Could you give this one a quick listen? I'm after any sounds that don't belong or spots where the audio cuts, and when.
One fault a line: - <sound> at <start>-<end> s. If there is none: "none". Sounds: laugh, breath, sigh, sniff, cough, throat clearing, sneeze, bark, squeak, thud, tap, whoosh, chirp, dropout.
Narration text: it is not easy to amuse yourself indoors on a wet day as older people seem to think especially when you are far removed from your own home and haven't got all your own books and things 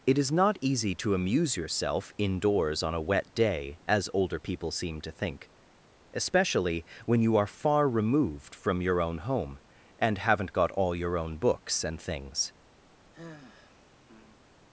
- sigh at 13.1-14.4 s